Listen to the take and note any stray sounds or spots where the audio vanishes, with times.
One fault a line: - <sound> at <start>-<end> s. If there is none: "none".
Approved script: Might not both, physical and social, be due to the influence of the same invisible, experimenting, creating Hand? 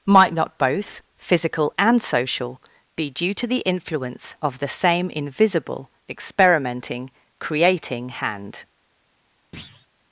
- thud at 9.5-9.9 s